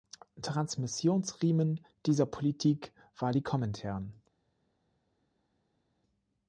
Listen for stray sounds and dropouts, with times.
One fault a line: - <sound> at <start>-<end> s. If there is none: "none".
none